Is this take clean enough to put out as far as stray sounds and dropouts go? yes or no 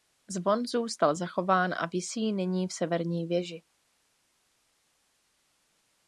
yes